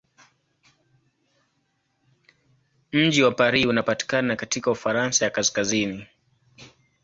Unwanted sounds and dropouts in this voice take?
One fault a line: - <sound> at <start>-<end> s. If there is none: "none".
none